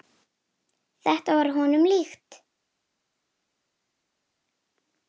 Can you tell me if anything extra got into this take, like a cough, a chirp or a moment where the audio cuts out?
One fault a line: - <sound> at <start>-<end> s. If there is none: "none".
none